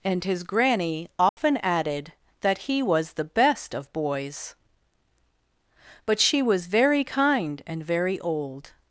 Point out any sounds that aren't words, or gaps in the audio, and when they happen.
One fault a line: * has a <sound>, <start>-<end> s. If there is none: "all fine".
* has a dropout, 1.3-1.4 s